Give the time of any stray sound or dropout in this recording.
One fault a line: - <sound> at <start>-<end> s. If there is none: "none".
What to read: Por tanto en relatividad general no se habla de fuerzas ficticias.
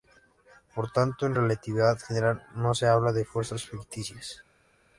none